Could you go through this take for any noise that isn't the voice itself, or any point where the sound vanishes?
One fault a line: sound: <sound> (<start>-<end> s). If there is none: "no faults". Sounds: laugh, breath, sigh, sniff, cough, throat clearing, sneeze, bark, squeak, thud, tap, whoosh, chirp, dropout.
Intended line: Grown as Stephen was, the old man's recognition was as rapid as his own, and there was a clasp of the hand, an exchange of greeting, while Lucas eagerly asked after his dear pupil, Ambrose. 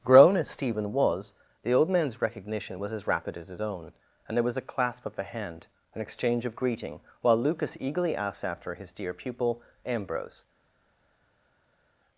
no faults